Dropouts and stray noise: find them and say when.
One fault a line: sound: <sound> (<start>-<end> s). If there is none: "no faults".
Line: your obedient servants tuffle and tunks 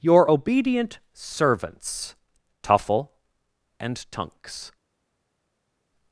no faults